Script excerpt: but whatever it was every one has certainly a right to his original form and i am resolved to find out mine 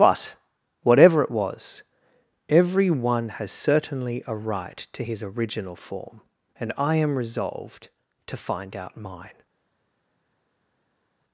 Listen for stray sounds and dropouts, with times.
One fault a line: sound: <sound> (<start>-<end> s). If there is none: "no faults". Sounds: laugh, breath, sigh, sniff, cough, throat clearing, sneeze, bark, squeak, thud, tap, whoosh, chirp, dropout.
no faults